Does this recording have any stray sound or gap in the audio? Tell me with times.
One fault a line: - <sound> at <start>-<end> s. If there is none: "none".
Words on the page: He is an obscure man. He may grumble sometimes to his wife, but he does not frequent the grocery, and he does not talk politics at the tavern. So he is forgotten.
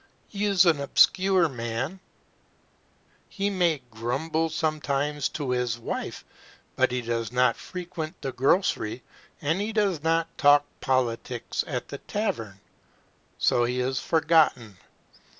none